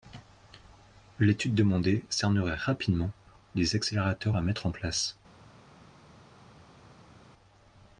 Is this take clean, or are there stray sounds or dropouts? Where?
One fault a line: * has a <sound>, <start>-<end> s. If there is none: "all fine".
all fine